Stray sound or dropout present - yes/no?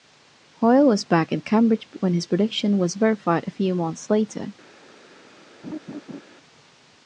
yes